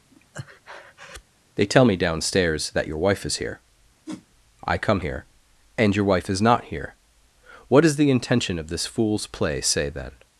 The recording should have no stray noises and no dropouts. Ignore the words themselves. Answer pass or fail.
fail